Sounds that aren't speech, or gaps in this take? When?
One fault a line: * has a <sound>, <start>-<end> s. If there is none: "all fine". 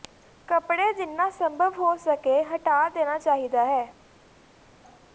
all fine